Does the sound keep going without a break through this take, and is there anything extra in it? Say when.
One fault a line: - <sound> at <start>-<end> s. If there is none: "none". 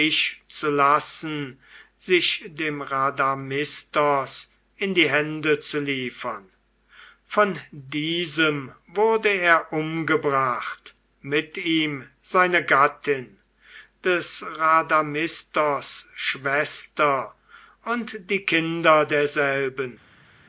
none